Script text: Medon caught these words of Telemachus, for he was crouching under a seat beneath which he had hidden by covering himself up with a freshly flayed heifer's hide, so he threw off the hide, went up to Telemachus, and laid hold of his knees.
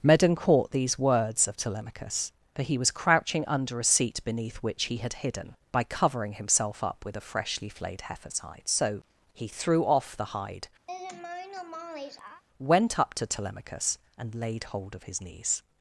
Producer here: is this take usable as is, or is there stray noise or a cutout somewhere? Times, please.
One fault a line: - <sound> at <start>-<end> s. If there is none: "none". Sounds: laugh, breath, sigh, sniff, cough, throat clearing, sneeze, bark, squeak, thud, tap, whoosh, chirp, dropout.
- laugh at 10.9-12.4 s